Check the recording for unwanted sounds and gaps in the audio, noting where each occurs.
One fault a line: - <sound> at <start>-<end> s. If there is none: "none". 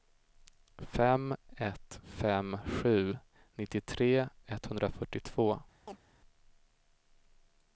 - chirp at 5.9-6.0 s